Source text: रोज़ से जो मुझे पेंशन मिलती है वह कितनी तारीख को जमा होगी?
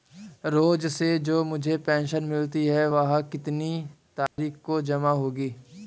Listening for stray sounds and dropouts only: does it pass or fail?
fail